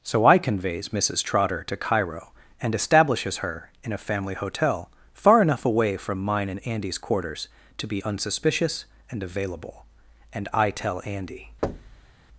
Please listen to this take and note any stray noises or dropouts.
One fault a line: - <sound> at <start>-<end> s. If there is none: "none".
- thud at 11.6-12.1 s